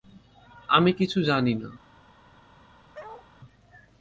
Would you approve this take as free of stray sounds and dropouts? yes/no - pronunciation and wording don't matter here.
no